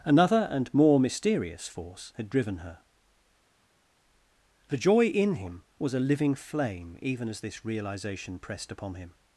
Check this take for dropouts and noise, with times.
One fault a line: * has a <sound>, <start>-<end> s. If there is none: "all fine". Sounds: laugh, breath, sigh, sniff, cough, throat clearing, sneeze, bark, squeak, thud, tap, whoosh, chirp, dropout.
all fine